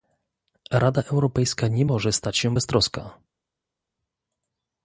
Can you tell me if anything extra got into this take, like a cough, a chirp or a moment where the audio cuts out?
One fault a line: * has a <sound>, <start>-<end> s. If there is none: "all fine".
all fine